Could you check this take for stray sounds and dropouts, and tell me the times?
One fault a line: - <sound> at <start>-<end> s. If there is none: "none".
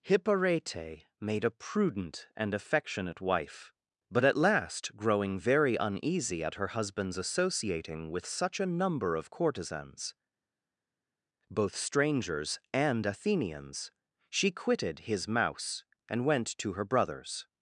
none